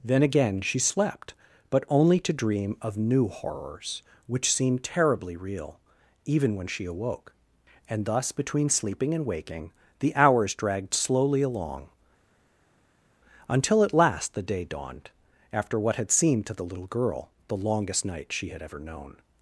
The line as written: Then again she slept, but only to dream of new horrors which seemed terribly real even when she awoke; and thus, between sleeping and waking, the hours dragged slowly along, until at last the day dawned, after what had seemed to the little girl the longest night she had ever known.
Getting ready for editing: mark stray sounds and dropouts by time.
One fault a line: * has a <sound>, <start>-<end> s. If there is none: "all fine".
all fine